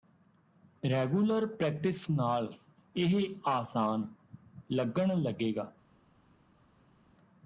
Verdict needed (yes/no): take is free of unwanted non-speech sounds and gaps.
yes